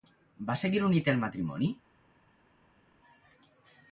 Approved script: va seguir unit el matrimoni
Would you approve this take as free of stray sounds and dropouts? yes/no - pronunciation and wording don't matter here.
yes